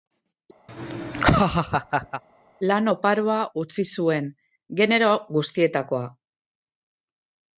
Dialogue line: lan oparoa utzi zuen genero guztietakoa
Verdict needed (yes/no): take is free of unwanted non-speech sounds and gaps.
no